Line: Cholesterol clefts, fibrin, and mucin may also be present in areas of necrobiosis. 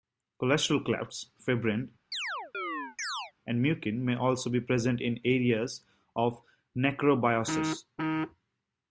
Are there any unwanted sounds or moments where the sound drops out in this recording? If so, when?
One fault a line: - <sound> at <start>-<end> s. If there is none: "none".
- chirp at 2.1-3.3 s